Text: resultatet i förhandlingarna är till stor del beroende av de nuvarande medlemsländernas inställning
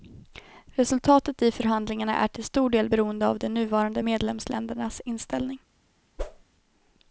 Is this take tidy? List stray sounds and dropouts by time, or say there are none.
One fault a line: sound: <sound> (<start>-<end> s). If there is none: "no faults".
sound: whoosh (6.2-6.4 s)